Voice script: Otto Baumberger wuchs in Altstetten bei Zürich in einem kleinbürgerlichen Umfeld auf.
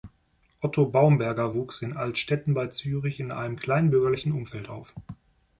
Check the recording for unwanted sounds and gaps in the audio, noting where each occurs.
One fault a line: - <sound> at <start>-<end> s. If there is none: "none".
none